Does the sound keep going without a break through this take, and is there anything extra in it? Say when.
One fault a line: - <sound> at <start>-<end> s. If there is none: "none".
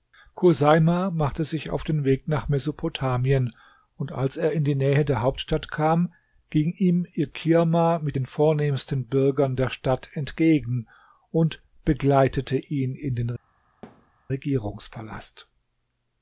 - thud at 13.8-14.1 s